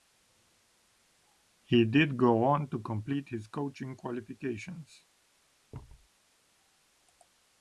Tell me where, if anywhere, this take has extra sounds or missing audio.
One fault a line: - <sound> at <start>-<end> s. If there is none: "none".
- thud at 5.7-6.1 s